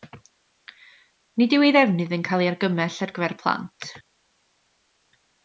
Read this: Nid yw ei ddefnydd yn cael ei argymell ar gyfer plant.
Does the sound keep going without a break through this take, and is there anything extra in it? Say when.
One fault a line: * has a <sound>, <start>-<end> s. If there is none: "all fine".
all fine